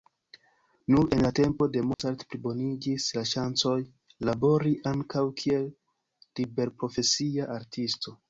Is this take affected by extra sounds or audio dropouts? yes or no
yes